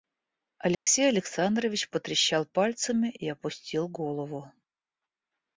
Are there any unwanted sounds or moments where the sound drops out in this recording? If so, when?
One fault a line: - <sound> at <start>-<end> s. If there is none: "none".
- dropout at 0.7-0.9 s